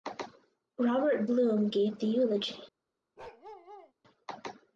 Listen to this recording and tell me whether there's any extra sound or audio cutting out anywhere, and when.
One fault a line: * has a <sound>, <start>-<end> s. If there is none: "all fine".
* has a bark, 3.2-3.9 s